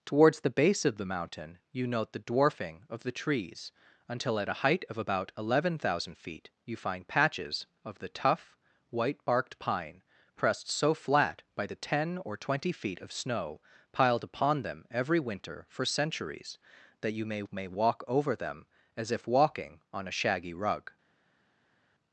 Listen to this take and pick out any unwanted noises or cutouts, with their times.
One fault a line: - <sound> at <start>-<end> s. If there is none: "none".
none